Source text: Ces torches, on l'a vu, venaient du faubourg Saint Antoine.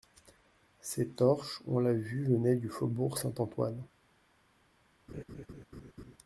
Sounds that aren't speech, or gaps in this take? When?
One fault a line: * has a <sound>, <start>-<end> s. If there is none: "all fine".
* has a laugh, 5.1-6.2 s